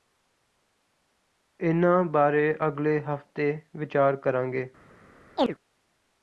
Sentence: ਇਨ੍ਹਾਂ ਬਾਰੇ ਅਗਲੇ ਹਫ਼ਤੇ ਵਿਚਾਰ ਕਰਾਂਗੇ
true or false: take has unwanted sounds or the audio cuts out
true